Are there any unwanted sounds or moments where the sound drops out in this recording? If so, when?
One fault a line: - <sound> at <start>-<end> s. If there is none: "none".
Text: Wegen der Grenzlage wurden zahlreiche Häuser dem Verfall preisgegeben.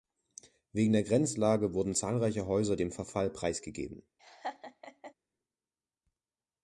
- laugh at 4.2-5.1 s